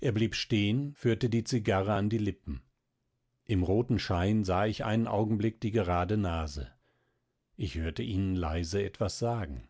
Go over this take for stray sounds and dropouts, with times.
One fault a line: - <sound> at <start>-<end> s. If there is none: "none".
none